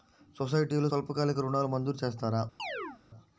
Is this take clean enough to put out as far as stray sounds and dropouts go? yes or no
no